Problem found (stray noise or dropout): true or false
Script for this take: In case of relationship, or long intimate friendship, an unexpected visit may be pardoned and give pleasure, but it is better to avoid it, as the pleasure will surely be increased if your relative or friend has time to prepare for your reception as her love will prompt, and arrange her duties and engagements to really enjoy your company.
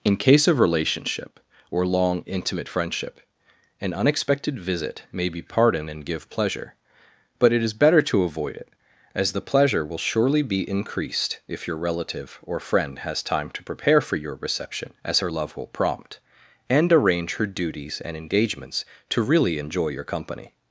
false